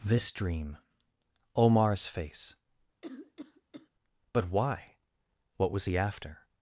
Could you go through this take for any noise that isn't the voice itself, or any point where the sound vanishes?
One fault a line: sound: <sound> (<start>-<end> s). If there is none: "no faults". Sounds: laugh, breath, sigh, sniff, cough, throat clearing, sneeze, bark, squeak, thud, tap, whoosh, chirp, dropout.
sound: cough (3.0-3.9 s)